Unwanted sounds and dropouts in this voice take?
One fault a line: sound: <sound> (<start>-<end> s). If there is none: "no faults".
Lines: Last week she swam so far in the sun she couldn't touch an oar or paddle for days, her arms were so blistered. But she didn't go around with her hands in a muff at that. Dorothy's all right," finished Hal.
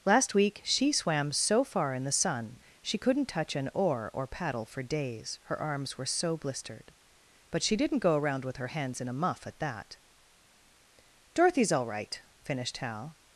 no faults